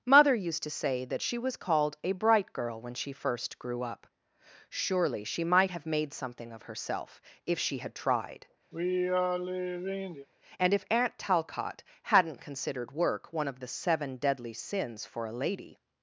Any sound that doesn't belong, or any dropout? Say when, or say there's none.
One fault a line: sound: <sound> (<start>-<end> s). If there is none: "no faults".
sound: sigh (8.7-10.3 s)